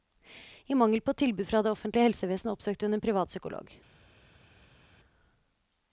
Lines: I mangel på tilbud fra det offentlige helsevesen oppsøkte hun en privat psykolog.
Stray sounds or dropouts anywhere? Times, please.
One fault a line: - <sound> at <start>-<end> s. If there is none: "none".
none